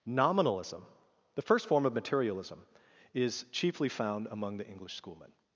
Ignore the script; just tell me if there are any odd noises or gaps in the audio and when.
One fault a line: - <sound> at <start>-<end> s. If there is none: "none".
none